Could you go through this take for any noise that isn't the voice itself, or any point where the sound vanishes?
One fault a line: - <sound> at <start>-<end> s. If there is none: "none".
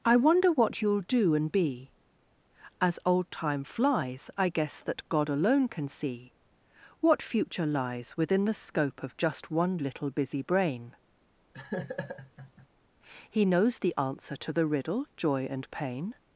- laugh at 11.5-12.7 s